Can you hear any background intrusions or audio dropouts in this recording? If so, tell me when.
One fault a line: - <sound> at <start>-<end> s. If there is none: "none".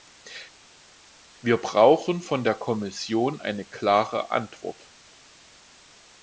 none